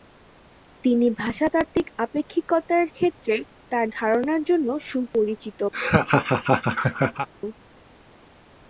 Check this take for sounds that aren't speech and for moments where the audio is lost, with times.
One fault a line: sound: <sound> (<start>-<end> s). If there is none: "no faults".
sound: laugh (5.7-7.3 s)